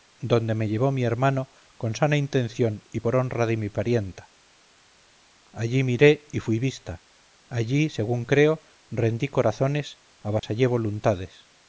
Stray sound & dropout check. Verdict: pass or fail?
fail